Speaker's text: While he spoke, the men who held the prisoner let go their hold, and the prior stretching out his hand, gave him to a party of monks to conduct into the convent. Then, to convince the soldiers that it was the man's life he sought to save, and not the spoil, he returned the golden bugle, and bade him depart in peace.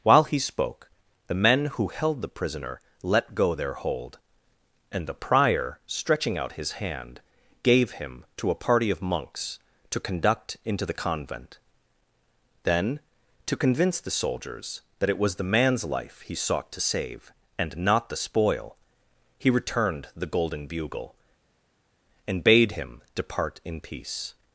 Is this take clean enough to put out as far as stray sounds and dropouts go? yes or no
yes